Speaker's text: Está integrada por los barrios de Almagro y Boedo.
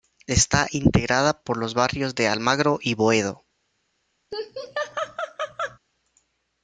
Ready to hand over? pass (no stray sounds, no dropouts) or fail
fail